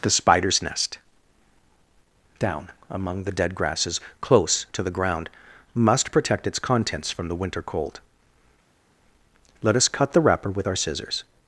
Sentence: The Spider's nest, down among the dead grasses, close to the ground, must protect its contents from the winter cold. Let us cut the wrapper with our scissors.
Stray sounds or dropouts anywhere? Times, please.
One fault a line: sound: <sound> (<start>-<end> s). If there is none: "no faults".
no faults